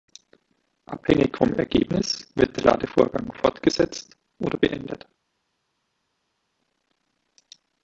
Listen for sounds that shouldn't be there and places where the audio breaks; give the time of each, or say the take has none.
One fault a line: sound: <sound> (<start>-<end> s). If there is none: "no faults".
no faults